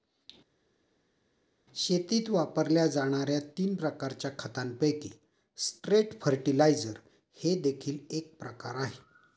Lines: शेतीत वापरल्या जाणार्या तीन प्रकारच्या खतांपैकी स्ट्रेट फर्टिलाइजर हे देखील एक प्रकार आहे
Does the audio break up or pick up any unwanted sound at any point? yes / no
no